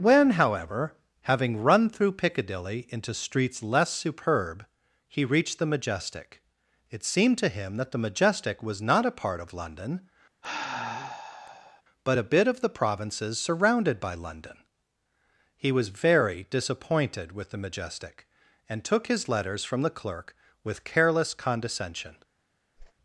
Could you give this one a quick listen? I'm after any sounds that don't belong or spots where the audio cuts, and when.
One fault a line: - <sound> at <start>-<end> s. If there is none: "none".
- sigh at 10.4-11.8 s
- whoosh at 22.8-22.9 s